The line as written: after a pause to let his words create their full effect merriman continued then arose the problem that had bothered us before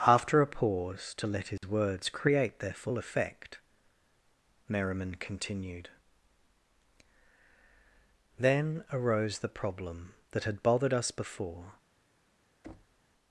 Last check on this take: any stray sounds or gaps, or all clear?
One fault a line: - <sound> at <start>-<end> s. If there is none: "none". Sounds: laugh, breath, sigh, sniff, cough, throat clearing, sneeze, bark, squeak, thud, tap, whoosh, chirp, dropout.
- dropout at 1.6-1.6 s
- thud at 12.6-13.0 s